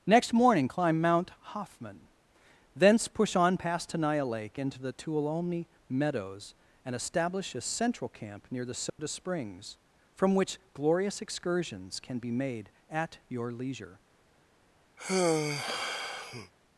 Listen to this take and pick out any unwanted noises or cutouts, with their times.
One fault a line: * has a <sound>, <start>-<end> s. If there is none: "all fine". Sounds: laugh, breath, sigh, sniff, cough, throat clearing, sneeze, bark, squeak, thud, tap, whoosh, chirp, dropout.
* has a dropout, 8.9-9.0 s
* has a sigh, 15.0-16.5 s